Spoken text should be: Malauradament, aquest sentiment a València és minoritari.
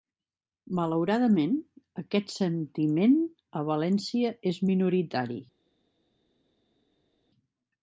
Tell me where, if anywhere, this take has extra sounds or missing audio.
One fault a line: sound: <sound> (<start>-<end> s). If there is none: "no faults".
no faults